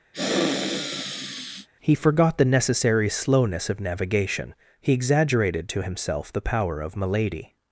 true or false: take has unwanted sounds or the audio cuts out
true